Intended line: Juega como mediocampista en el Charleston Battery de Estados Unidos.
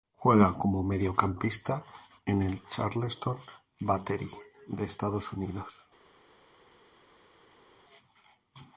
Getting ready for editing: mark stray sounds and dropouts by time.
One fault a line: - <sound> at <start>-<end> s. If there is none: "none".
none